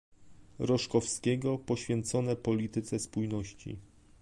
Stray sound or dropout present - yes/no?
no